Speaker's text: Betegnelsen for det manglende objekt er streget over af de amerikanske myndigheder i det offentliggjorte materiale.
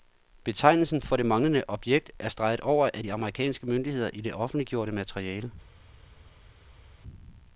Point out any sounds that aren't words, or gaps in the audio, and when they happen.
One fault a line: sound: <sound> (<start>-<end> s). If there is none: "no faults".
no faults